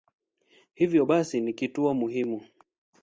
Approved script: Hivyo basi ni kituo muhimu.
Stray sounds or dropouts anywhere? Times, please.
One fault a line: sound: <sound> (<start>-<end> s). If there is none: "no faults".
no faults